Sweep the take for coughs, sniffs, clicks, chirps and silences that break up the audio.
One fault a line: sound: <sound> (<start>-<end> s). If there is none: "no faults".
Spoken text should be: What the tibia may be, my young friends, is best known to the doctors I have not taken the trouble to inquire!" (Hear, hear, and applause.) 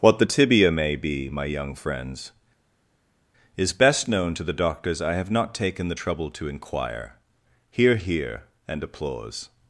no faults